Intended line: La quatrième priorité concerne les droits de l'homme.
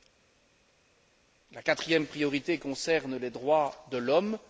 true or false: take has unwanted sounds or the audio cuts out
false